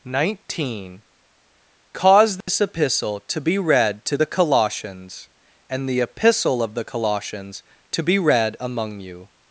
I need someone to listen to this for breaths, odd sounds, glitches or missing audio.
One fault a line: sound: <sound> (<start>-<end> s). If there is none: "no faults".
sound: dropout (2.4-2.5 s)